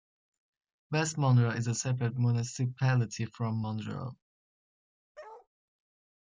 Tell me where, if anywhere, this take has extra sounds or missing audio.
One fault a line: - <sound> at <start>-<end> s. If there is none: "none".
- bark at 5.1-5.5 s